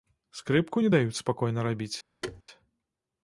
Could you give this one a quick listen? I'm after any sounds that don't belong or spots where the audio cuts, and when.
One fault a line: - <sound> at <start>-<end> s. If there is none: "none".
- thud at 2.2-2.4 s